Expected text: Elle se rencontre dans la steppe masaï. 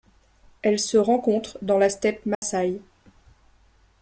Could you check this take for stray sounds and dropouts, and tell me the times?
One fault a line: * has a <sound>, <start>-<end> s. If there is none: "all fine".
* has a dropout, 2.3-2.4 s